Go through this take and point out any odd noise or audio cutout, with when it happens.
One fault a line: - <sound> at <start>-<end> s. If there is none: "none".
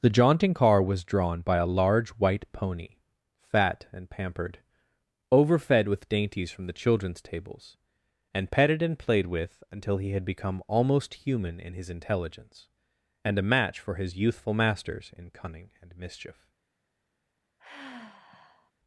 - sigh at 17.6-18.7 s